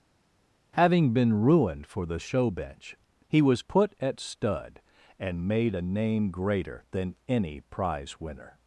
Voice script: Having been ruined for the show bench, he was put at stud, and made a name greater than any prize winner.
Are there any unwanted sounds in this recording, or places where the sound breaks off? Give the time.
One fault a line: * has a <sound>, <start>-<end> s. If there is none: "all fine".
all fine